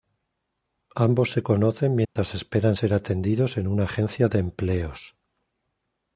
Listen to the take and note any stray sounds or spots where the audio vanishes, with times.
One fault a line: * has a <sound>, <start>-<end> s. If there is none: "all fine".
* has a dropout, 2.0-2.2 s